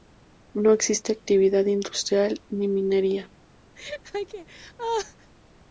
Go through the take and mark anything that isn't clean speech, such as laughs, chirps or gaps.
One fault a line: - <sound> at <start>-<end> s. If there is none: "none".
- laugh at 3.8-5.3 s